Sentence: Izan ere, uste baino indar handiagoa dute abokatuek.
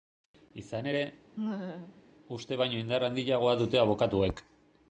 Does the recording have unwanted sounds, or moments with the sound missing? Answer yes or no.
yes